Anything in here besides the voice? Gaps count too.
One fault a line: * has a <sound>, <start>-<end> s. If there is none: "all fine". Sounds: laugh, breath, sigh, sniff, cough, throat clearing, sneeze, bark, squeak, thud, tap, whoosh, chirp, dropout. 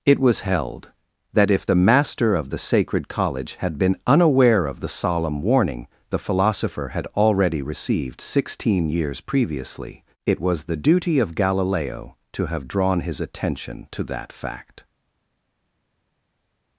all fine